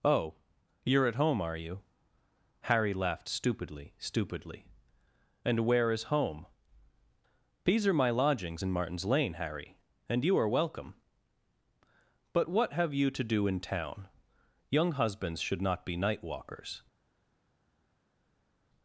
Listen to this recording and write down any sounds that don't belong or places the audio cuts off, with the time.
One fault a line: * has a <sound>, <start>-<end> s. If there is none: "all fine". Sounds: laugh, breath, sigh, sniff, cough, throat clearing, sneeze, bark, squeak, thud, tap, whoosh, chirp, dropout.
all fine